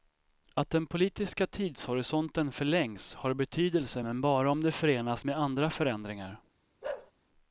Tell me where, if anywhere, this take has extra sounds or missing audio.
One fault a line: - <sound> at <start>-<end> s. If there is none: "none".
- bark at 6.8-7.1 s